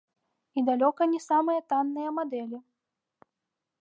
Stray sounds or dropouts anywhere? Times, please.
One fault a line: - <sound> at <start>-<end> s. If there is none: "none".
none